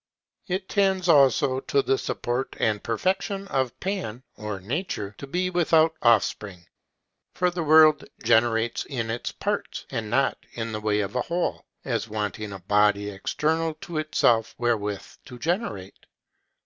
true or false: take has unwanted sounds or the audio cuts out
false